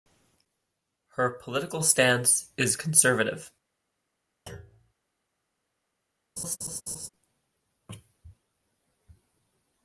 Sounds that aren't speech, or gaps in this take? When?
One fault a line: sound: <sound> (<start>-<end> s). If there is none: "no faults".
sound: thud (4.5-4.9 s)
sound: laugh (6.4-7.1 s)